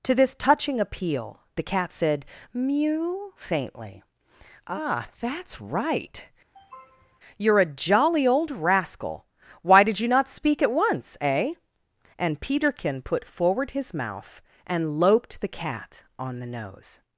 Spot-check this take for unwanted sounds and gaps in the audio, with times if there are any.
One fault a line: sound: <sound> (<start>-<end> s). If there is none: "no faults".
sound: sniff (6.5-7.2 s)